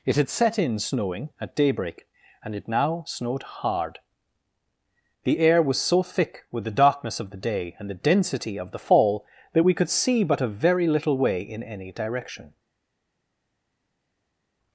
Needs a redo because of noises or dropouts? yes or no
no